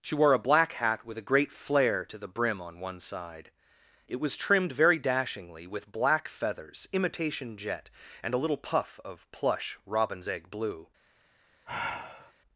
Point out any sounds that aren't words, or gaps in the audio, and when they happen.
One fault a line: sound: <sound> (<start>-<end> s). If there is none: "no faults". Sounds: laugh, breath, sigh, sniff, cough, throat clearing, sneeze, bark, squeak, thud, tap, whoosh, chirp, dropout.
sound: sigh (11.7-12.3 s)